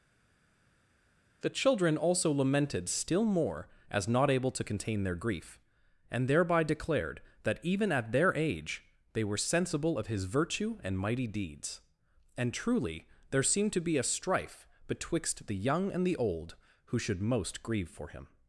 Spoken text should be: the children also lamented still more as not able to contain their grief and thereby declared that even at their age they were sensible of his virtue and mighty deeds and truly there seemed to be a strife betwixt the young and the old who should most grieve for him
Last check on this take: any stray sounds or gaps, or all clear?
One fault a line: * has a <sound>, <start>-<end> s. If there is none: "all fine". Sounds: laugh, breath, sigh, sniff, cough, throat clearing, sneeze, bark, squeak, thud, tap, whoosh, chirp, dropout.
all fine